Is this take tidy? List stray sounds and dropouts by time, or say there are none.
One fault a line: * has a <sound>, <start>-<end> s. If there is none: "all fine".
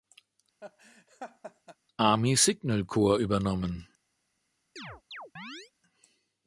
* has a laugh, 0.6-1.8 s
* has a chirp, 4.8-5.7 s